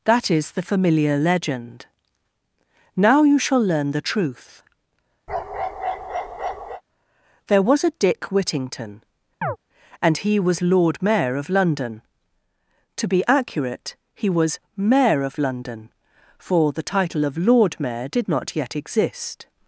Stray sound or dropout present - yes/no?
yes